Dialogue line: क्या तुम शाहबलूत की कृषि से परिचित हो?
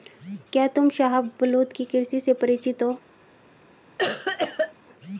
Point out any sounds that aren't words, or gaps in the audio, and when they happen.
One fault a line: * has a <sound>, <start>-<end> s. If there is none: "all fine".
* has a cough, 4.0-4.7 s